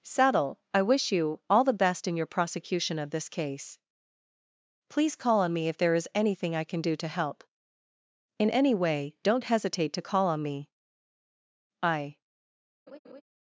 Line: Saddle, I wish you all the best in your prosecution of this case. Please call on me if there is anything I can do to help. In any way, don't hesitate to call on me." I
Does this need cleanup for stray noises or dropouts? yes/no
yes